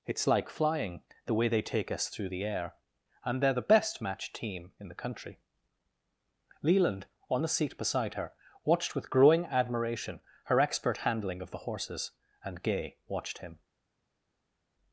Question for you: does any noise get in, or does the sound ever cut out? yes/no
no